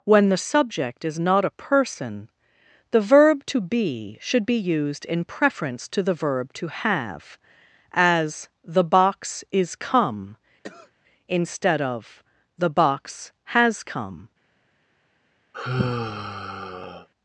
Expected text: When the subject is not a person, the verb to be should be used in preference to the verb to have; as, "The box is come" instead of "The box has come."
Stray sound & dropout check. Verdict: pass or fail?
fail